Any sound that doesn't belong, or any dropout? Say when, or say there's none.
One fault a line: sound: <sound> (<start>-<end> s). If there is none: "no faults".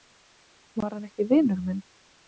no faults